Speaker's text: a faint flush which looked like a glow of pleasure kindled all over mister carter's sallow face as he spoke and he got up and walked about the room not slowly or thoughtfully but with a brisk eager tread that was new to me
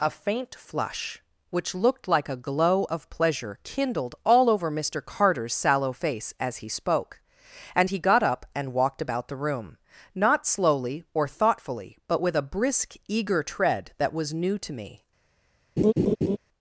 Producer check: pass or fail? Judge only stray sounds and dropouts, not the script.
fail